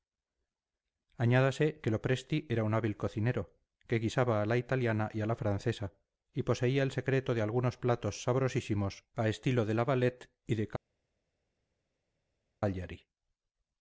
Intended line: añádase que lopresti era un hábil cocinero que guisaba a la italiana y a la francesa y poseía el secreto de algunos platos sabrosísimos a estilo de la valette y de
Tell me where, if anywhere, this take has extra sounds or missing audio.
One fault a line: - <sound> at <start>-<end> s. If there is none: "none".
none